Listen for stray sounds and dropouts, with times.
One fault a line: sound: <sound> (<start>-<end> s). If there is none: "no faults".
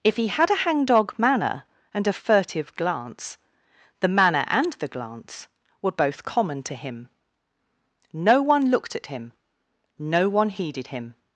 no faults